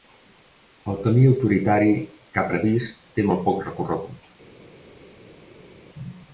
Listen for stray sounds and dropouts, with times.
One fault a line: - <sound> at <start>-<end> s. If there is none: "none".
none